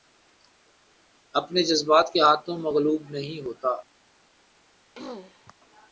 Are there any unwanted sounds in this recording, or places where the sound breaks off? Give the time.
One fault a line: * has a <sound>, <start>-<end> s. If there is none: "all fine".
* has a throat clearing, 5.0-5.5 s